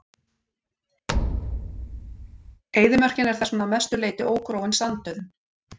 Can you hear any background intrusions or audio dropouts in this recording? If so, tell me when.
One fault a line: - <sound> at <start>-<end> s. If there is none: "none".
- thud at 1.1-2.6 s